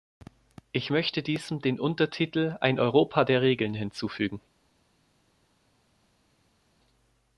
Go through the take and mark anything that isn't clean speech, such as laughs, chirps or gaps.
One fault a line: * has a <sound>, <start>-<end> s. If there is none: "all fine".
all fine